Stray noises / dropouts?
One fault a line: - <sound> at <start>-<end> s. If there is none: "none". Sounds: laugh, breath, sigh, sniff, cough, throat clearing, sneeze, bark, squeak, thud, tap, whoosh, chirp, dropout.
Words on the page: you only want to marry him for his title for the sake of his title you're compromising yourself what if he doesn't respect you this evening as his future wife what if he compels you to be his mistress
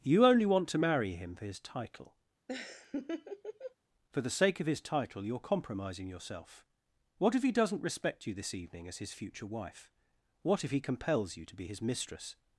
- laugh at 2.5-3.7 s